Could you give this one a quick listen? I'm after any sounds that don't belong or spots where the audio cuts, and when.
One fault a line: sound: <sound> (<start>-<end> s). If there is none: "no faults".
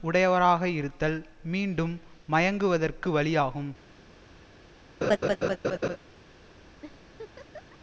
sound: laugh (5.0-6.0 s)
sound: laugh (6.8-7.8 s)